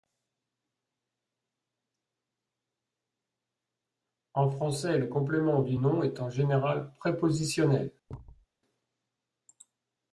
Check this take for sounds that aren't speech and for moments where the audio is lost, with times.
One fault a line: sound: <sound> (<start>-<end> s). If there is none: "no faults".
sound: thud (8.1-8.5 s)